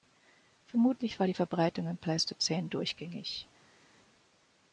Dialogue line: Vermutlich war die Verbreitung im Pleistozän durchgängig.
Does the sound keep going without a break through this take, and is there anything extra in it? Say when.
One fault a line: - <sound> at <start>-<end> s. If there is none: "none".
none